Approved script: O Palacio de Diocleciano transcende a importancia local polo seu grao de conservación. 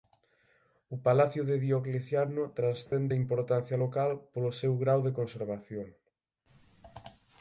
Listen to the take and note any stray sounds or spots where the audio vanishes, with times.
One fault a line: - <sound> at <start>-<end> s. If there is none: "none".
- dropout at 2.9-2.9 s